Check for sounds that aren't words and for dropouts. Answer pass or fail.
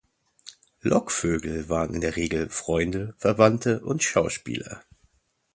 pass